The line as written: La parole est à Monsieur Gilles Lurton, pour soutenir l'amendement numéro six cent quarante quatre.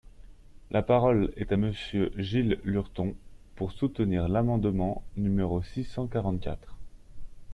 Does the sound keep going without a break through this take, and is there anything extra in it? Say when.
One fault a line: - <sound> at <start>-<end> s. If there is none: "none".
none